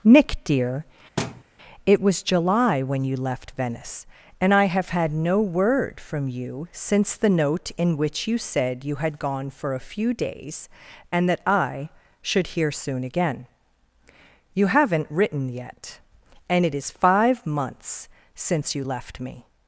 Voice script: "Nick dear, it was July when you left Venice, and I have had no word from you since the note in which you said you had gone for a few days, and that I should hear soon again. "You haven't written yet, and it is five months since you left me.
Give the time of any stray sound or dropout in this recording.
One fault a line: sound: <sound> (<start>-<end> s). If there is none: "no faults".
sound: thud (1.2-1.4 s)